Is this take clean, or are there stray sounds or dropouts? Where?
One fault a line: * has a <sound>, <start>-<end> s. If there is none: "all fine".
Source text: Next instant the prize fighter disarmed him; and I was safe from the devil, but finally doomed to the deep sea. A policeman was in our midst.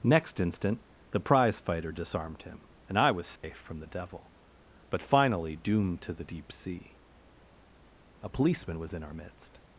* has a dropout, 3.4-3.4 s